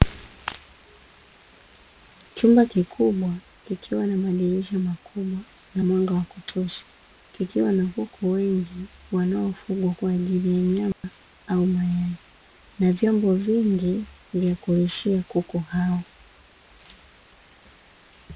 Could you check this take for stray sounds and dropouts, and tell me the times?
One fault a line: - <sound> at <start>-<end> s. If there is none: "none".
- dropout at 10.9-11.0 s